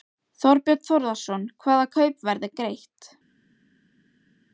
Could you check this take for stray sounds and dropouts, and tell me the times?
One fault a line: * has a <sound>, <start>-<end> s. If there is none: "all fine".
all fine